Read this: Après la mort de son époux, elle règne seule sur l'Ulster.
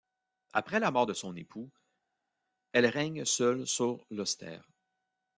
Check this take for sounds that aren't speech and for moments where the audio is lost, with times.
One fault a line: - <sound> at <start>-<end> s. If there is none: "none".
none